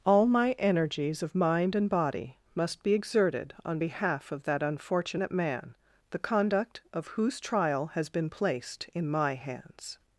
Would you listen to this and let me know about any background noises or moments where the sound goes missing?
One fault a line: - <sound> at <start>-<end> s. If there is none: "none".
none